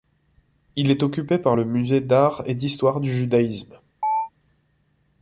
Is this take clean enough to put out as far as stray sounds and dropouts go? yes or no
no